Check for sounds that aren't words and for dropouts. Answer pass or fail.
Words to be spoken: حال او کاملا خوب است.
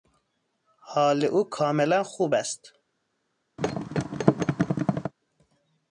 fail